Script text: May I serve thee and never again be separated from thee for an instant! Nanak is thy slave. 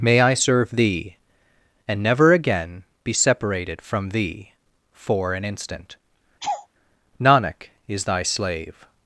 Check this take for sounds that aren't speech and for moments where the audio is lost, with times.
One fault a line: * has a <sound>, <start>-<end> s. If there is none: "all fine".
* has a laugh, 6.4-6.7 s